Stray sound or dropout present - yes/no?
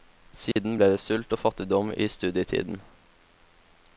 yes